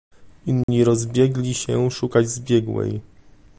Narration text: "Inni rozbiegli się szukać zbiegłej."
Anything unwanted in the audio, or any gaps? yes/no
yes